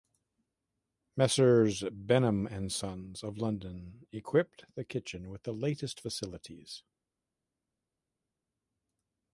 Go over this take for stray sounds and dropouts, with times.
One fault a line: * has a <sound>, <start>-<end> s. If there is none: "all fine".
all fine